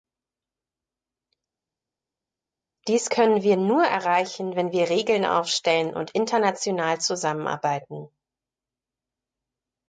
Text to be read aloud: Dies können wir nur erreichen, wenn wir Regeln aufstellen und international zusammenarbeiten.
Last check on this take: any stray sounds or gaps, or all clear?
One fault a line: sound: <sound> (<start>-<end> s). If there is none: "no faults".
no faults